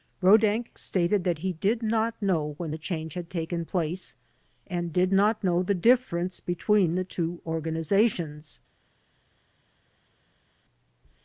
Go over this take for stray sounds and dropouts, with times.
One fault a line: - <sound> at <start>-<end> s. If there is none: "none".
none